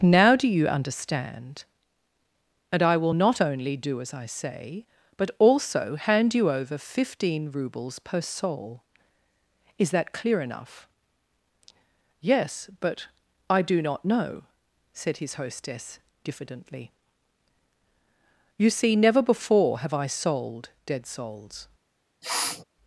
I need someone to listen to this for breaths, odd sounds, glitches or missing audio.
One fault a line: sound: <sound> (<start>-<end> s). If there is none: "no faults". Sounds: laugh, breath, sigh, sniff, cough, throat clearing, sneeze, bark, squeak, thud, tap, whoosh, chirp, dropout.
sound: sniff (22.2-22.6 s)